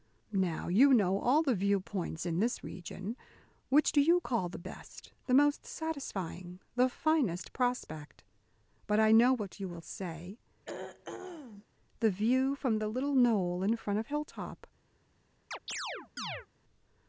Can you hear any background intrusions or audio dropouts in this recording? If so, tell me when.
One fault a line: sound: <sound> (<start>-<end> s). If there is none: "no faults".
sound: throat clearing (10.6-11.7 s)
sound: chirp (15.5-16.5 s)